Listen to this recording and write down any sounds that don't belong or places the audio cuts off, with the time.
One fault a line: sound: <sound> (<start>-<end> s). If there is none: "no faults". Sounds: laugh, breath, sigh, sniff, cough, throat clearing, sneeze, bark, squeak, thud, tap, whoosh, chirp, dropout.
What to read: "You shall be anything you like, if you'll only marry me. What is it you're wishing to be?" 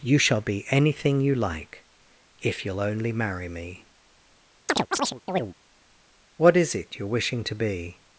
sound: chirp (4.7-5.5 s)